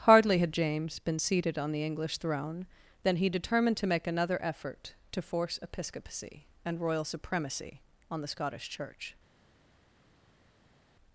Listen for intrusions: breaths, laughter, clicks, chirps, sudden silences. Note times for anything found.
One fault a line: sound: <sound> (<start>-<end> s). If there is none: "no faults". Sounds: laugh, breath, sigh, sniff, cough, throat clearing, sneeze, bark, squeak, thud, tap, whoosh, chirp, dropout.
no faults